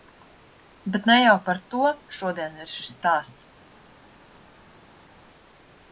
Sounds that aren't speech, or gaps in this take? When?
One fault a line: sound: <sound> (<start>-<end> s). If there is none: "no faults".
no faults